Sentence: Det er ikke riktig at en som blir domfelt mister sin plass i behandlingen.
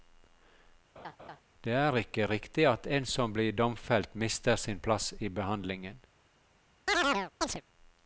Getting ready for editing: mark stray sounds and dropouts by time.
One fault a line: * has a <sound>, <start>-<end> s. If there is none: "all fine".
* has a laugh, 1.0-1.4 s
* has a chirp, 6.9-7.6 s